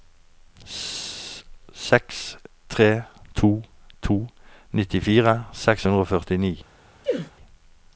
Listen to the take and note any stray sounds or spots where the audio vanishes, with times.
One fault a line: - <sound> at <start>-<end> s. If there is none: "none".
- sneeze at 7.0-7.3 s